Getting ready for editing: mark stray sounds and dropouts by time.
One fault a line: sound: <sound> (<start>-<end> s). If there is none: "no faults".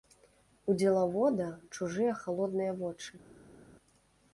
no faults